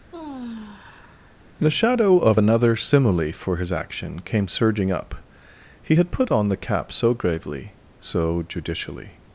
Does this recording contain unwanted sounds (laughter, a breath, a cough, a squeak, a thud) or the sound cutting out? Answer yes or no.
yes